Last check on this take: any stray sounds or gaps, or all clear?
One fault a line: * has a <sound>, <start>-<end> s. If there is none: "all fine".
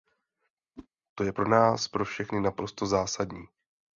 * has a whoosh, 0.8-0.9 s